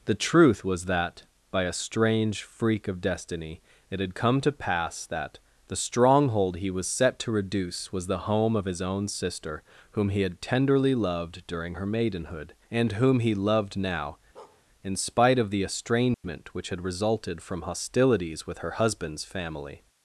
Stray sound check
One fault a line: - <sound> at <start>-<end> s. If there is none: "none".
- bark at 14.4-14.6 s
- dropout at 16.1-16.2 s